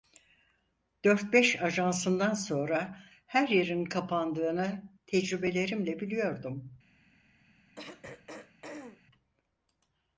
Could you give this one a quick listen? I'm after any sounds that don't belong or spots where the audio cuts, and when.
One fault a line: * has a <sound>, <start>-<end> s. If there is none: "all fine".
* has a throat clearing, 7.8-9.0 s